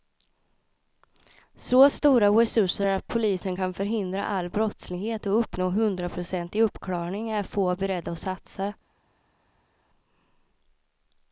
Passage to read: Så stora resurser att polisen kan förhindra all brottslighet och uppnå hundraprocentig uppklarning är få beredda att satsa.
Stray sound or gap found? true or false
false